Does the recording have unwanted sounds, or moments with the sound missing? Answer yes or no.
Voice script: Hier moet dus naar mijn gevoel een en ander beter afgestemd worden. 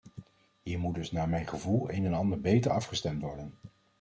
no